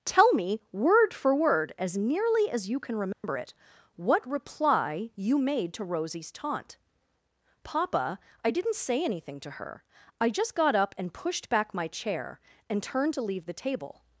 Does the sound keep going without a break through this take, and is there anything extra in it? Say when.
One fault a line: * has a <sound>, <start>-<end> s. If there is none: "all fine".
* has a dropout, 3.1-3.2 s